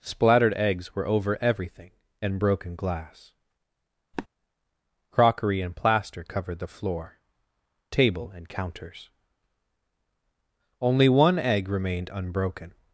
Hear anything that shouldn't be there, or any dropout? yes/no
yes